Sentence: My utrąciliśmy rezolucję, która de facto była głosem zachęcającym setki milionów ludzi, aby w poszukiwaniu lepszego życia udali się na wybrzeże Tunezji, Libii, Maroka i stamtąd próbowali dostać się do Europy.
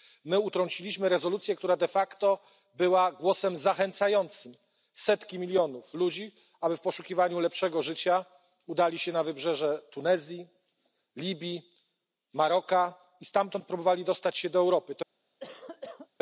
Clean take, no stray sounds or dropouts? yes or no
no